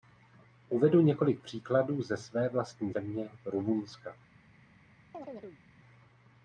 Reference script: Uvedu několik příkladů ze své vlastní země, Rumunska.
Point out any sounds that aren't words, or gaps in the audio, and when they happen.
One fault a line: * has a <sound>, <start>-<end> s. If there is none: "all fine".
* has a chirp, 5.1-5.6 s